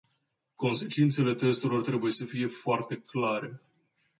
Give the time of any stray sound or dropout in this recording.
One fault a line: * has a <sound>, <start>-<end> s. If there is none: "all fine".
all fine